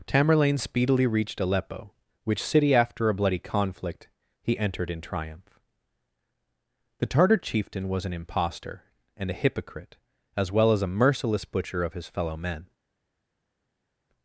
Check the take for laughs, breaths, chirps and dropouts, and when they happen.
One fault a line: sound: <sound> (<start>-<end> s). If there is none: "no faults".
no faults